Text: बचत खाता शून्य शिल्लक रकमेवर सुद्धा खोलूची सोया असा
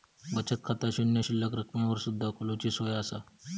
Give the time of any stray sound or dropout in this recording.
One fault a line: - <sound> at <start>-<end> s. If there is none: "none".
none